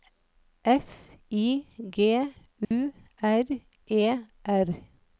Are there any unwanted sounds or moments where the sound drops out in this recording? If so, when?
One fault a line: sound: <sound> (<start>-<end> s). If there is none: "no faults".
sound: dropout (2.6-2.7 s)